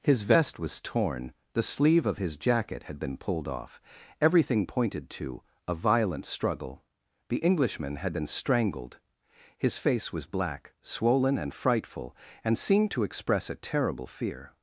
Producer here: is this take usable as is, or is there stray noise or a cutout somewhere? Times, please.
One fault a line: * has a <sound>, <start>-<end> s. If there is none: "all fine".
all fine